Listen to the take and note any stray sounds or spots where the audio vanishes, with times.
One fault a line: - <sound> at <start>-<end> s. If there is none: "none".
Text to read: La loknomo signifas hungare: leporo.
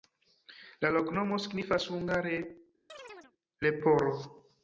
- chirp at 2.9-3.3 s